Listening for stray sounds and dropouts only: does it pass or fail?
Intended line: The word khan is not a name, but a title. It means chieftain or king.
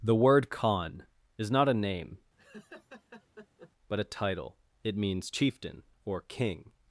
fail